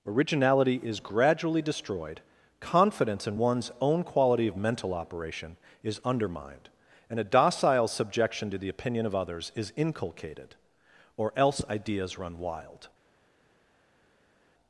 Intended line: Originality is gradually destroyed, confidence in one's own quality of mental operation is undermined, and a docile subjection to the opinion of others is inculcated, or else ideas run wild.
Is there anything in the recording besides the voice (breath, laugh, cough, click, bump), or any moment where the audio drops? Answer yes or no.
no